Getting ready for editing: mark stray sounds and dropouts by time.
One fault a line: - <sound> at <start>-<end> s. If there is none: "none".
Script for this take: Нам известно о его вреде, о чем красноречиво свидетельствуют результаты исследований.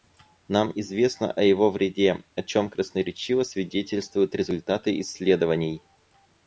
none